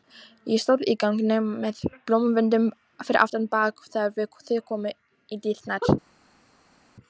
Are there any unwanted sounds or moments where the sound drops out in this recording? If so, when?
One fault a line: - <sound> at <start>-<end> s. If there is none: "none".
none